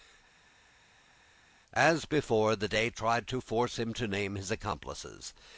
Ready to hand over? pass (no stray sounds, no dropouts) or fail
pass